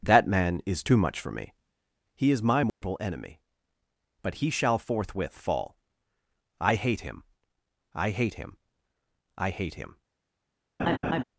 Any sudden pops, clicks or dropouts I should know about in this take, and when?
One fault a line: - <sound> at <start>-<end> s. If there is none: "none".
- dropout at 2.7-2.8 s
- laugh at 10.8-11.2 s